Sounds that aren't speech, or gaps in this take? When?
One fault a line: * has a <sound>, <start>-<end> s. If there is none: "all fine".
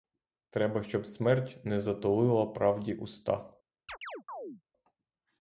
* has a chirp, 3.9-4.6 s